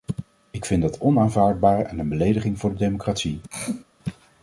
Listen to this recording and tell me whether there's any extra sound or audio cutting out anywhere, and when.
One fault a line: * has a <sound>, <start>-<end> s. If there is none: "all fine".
* has a throat clearing, 3.5-3.8 s